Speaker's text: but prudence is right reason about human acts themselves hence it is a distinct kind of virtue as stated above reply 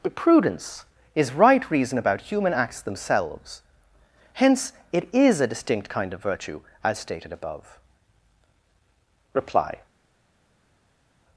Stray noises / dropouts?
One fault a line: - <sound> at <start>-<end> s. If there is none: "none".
none